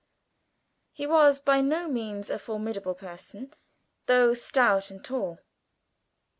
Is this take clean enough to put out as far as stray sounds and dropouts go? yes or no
yes